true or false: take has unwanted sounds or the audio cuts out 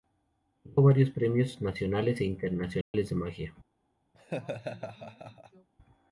true